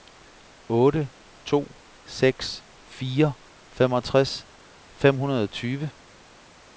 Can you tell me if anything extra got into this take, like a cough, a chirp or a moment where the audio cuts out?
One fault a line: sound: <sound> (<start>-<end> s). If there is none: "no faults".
no faults